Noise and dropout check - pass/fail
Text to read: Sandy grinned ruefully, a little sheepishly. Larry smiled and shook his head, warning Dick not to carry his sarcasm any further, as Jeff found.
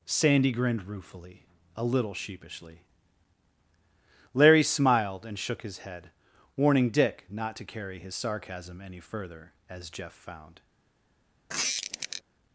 fail